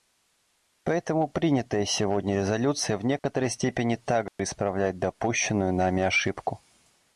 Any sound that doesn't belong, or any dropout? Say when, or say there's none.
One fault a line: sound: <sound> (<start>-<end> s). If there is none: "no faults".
sound: dropout (3.2-3.2 s)
sound: dropout (4.3-4.4 s)